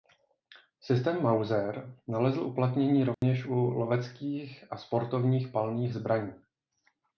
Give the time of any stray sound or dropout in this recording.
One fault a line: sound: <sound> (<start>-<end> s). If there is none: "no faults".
sound: dropout (3.1-3.2 s)